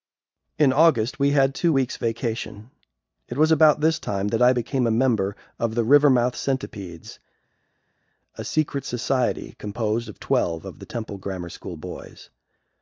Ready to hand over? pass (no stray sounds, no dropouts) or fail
pass